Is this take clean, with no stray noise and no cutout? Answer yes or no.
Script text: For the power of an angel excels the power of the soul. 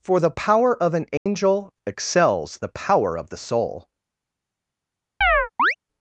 no